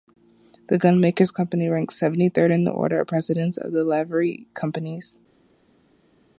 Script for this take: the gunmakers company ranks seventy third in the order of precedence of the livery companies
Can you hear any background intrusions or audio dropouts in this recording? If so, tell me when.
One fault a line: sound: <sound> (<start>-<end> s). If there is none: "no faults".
no faults